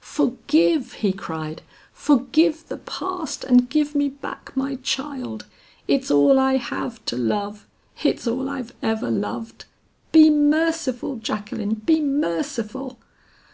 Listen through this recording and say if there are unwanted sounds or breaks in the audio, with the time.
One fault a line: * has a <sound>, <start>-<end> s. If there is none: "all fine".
all fine